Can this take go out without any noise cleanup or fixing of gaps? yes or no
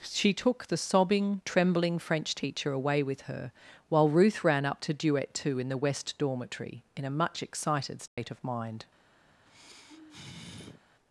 no